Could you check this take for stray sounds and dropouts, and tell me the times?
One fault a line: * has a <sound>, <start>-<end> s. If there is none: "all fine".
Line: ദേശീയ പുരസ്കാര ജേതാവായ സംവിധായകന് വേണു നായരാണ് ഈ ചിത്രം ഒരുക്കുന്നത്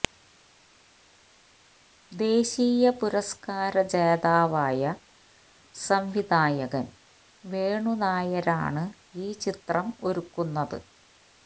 all fine